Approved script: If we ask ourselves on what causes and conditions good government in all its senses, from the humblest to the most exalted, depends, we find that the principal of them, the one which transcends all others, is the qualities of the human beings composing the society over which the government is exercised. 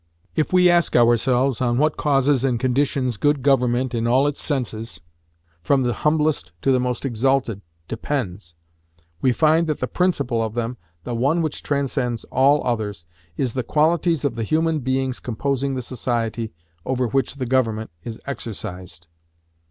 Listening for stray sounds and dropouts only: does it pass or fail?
pass